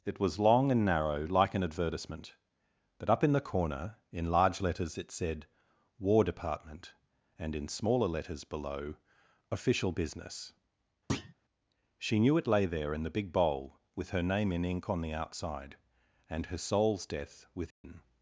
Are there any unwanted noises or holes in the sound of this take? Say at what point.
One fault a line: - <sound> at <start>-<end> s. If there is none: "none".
- thud at 11.1-11.3 s
- dropout at 17.7-17.8 s